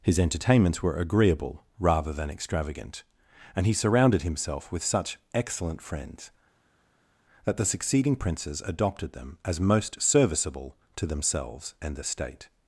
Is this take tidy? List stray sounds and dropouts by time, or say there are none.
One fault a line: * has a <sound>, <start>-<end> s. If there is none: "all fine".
all fine